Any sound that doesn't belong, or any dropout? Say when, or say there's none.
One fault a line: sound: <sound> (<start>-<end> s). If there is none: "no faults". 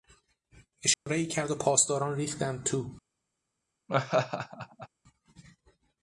sound: dropout (0.9-1.1 s)
sound: laugh (3.9-4.9 s)